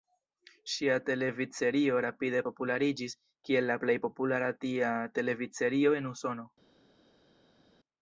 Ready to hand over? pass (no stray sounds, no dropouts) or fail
pass